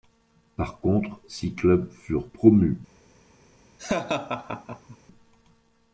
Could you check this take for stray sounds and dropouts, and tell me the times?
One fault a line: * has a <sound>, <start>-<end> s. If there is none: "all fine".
* has a laugh, 3.8-5.0 s